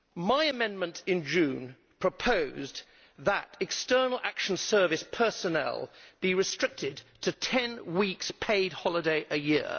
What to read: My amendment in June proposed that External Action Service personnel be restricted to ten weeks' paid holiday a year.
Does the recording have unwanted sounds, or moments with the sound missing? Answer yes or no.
no